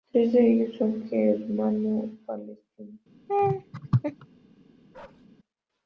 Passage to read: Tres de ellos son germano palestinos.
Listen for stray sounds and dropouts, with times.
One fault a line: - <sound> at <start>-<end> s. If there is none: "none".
- laugh at 3.3-4.3 s
- bark at 4.9-5.3 s